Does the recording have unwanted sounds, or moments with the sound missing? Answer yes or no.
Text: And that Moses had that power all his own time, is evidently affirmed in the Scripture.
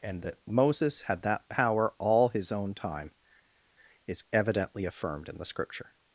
no